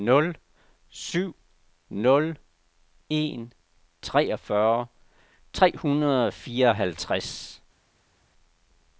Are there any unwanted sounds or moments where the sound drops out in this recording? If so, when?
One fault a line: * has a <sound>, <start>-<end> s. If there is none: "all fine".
all fine